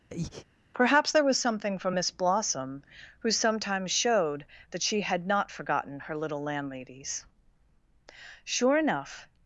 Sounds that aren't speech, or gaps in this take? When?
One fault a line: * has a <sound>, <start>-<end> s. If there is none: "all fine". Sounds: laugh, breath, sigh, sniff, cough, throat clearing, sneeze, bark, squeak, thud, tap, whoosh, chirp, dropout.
* has a breath, 0.1-0.5 s